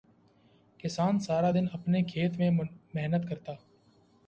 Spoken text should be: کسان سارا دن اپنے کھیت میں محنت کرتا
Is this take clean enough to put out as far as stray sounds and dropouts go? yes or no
yes